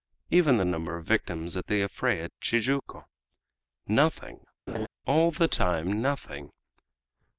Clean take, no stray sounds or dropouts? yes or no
no